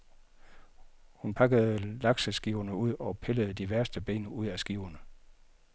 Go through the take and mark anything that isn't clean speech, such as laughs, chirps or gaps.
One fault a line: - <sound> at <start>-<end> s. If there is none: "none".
none